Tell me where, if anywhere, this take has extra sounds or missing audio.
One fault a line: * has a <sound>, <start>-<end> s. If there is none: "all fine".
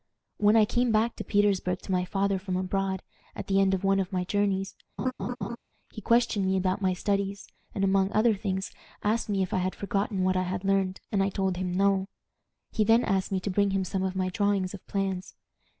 * has a laugh, 5.0-5.6 s